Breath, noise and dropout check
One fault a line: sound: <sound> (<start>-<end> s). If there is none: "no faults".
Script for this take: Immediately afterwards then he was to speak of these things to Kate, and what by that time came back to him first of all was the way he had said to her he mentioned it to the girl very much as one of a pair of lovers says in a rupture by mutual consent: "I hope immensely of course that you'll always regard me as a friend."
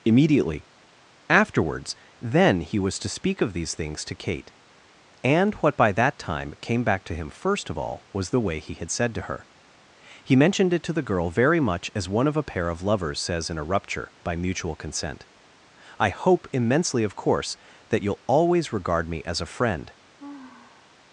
sound: sigh (20.2-21.0 s)